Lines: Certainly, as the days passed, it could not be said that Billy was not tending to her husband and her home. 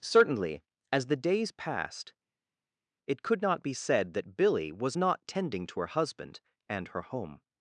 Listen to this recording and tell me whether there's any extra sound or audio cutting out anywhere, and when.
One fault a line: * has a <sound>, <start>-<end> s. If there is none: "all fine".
all fine